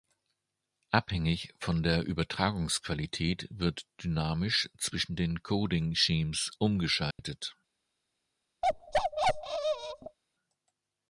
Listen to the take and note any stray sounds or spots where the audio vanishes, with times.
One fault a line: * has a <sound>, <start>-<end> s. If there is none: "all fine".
* has a dropout, 7.1-7.2 s
* has a bark, 8.6-10.2 s